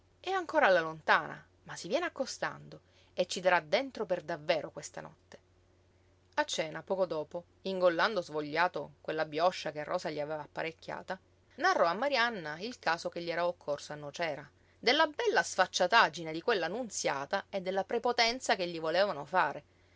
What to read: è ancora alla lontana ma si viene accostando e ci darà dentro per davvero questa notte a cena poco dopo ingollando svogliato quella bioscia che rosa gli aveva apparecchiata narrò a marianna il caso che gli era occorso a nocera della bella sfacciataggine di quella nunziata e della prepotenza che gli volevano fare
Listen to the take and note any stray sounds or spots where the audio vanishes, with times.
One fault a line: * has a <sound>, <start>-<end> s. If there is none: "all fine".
all fine